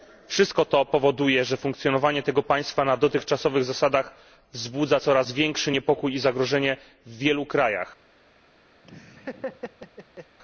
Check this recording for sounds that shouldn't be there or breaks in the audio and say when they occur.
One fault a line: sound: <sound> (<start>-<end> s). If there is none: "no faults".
sound: laugh (8.8-10.4 s)